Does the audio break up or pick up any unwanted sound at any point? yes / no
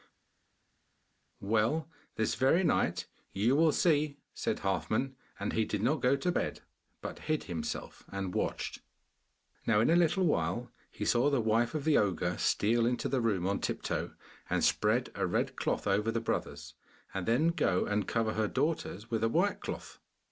no